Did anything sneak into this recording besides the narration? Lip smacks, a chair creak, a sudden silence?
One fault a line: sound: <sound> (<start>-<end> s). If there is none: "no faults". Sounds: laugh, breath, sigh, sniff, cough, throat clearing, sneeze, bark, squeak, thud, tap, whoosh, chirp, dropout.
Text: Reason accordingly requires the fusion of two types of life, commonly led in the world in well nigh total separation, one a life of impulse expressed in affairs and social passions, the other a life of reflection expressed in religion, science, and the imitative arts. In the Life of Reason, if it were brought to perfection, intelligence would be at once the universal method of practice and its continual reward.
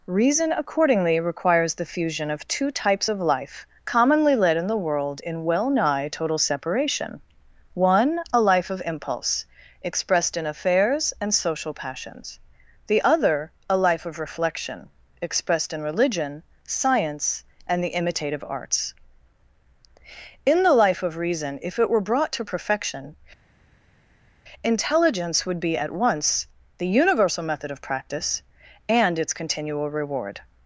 no faults